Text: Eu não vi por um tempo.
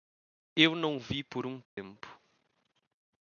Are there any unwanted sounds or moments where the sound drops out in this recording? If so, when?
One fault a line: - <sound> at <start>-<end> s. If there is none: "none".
- dropout at 1.7-1.8 s